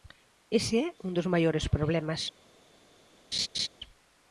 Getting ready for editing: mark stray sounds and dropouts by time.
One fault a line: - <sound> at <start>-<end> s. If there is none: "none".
- laugh at 3.3-3.7 s